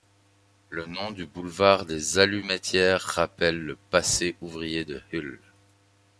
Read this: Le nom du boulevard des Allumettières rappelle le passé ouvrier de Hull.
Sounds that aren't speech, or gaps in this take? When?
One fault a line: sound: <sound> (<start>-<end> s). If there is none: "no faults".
no faults